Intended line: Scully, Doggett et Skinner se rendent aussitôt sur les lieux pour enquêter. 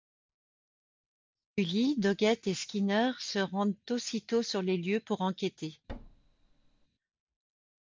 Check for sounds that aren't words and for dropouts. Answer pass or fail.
fail